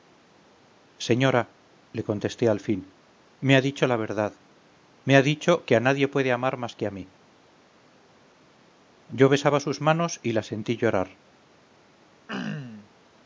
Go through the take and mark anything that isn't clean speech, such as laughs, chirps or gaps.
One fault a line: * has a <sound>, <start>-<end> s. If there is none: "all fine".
* has a throat clearing, 12.3-12.9 s